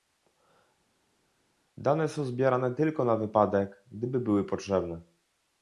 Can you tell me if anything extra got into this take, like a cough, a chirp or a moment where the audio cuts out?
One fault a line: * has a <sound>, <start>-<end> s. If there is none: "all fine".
all fine